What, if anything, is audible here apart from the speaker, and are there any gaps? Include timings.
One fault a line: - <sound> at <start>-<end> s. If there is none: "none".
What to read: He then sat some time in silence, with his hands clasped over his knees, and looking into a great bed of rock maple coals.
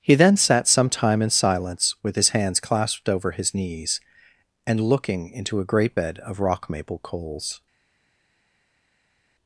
none